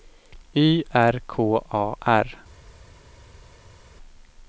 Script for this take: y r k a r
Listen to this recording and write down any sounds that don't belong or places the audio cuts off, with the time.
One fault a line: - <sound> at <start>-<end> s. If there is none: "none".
none